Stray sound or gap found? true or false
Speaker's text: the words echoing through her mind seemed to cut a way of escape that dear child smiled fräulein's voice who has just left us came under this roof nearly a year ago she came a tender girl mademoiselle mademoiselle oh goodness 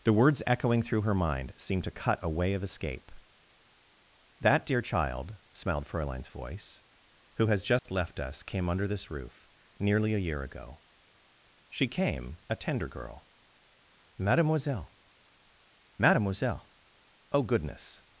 true